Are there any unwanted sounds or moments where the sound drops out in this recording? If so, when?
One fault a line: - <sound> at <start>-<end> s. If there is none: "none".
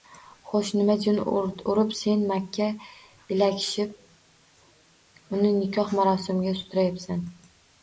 none